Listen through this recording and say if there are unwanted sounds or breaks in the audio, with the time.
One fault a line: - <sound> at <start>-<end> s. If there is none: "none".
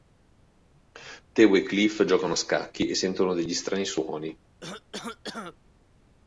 - cough at 4.6-5.6 s